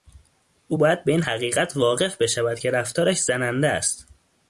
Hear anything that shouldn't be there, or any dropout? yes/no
no